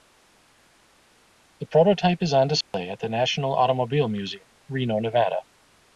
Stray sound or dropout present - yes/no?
yes